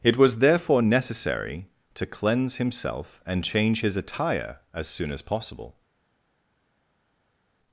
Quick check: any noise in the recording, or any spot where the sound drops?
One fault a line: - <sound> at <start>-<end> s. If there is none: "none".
none